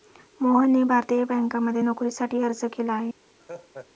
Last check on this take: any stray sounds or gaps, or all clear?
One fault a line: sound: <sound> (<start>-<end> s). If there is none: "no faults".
sound: laugh (3.4-3.9 s)